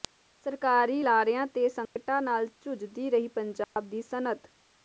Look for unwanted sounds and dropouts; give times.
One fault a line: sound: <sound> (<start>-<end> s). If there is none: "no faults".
sound: dropout (1.9-2.0 s)
sound: dropout (3.6-3.8 s)